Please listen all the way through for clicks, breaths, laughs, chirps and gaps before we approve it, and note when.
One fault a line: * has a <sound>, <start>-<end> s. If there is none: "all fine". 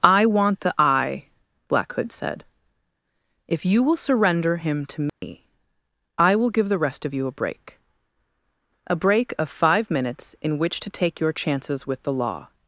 * has a dropout, 5.1-5.2 s